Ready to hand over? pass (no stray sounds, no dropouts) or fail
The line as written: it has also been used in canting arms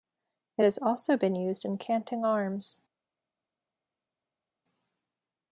pass